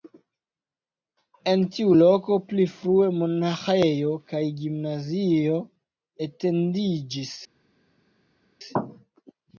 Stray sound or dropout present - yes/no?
no